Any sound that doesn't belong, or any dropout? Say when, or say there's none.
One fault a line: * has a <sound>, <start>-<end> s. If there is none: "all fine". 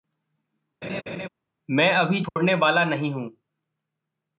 * has a laugh, 0.8-1.3 s
* has a dropout, 2.3-2.4 s